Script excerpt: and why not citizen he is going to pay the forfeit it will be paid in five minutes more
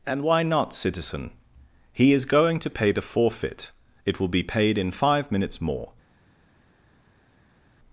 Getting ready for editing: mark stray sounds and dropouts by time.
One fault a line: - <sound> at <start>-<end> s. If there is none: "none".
none